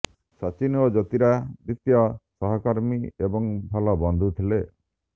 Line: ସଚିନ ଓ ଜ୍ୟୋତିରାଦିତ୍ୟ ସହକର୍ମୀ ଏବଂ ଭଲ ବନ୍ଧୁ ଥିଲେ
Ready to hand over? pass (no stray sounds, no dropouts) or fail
pass